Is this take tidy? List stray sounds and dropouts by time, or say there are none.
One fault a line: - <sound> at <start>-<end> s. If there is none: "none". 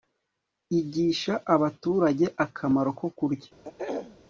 - throat clearing at 3.6-4.2 s